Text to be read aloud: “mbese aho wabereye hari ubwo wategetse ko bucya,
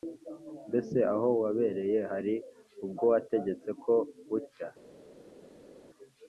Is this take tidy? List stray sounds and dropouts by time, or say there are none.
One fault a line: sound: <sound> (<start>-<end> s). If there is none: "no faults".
no faults